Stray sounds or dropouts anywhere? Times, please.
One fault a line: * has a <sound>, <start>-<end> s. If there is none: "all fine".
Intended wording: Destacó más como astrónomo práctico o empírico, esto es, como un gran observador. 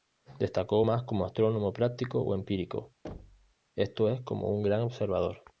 * has a thud, 3.0-3.5 s